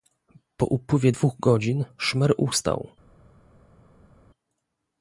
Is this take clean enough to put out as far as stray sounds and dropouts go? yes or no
yes